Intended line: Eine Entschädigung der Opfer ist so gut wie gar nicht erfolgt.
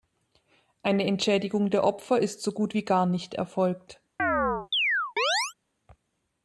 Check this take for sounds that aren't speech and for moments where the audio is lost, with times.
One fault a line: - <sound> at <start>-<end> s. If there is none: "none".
- chirp at 4.2-5.5 s